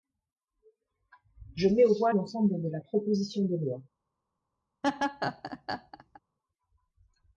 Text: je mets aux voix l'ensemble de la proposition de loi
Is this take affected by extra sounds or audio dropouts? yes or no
yes